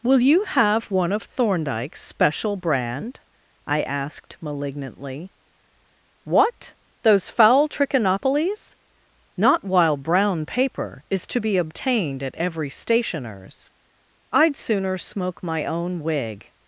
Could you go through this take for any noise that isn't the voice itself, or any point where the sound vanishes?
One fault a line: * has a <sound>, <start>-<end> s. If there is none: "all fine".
all fine